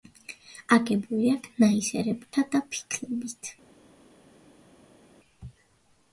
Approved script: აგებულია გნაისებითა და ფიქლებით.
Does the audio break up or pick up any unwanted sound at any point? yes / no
no